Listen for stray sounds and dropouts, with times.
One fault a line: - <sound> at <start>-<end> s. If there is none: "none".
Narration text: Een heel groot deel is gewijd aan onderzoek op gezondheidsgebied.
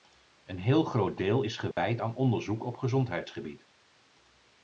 - dropout at 1.7-1.8 s